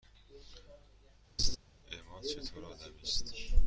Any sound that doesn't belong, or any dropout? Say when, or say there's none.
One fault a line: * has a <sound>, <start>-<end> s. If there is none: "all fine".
* has a laugh, 1.4-1.6 s